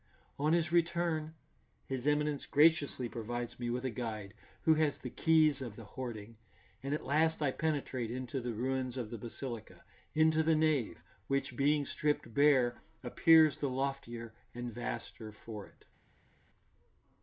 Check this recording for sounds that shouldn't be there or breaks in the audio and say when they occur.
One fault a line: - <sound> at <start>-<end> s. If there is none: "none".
none